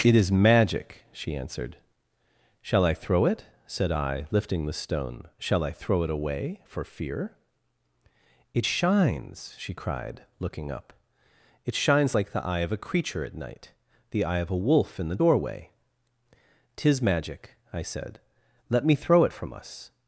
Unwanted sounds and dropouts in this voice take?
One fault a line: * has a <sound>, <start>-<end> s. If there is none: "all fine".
all fine